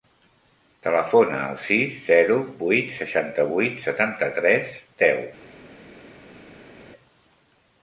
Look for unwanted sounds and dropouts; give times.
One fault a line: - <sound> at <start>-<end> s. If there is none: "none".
none